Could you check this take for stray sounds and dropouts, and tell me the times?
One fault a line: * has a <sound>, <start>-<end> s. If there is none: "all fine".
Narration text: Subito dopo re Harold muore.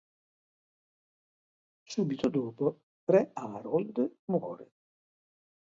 all fine